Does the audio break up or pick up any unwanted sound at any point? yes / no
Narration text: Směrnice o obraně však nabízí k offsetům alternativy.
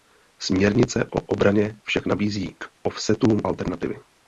no